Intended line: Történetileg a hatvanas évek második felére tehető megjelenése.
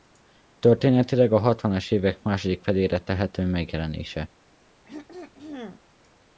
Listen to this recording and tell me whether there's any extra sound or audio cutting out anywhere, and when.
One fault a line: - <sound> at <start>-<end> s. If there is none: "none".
- throat clearing at 4.8-5.8 s